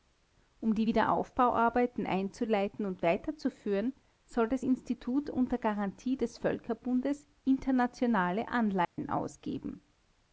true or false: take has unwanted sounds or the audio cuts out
true